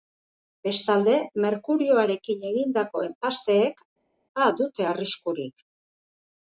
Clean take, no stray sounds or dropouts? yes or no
yes